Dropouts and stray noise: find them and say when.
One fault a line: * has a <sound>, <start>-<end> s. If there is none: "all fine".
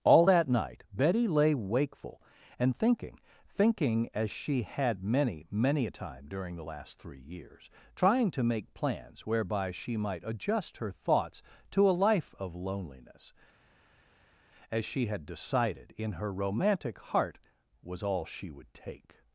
all fine